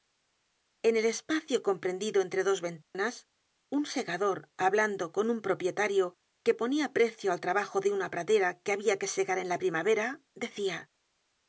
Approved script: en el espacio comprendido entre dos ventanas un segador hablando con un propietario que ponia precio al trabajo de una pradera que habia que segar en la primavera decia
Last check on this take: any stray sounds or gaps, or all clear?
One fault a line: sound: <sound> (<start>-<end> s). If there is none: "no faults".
sound: dropout (2.8-2.9 s)